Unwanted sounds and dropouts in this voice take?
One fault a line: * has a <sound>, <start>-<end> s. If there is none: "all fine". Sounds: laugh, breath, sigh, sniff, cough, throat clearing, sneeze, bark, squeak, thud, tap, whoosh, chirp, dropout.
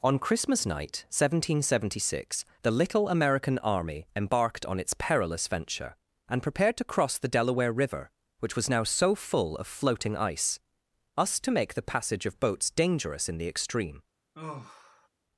* has a sigh, 14.3-15.1 s